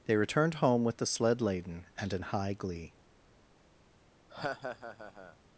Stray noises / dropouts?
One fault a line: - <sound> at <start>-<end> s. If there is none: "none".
- laugh at 4.3-5.4 s